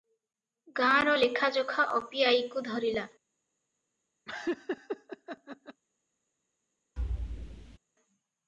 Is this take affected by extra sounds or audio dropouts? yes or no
yes